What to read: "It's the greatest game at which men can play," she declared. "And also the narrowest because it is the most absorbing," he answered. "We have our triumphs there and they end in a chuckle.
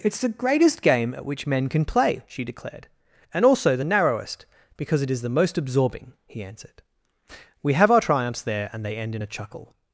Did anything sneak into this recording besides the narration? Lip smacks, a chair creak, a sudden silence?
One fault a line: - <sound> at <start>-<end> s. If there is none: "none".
none